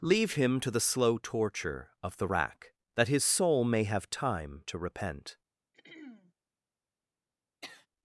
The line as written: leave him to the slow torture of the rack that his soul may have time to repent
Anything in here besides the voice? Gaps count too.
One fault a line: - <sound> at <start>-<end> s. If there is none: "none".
- throat clearing at 5.7-6.3 s
- sniff at 7.6-7.9 s